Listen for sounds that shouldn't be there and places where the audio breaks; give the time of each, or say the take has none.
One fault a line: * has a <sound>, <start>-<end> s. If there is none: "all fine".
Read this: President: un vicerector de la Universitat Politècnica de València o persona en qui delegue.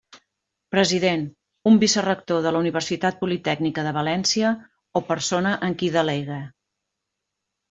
all fine